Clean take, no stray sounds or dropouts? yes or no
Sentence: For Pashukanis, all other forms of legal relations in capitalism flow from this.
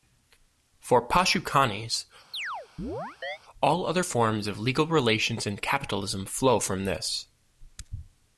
no